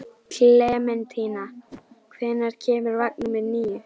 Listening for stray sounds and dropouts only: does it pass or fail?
fail